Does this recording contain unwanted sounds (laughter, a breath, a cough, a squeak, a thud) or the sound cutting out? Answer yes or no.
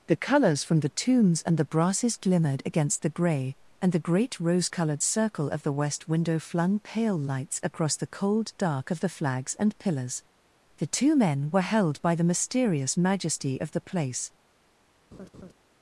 yes